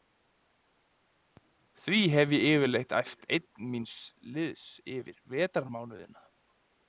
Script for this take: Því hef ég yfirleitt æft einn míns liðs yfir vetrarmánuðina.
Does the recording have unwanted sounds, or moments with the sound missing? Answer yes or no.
no